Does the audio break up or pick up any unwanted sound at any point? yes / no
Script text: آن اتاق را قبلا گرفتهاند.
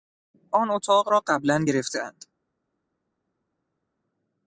no